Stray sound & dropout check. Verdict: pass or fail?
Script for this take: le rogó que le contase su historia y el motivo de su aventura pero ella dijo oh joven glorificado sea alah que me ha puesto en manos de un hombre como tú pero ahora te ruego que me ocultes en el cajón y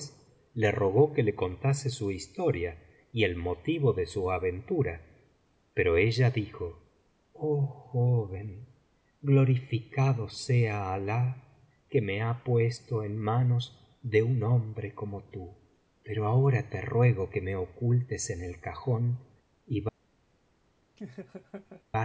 fail